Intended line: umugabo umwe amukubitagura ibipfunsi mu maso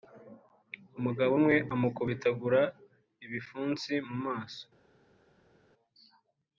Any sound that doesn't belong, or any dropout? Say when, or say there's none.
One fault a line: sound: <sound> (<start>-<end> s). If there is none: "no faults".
no faults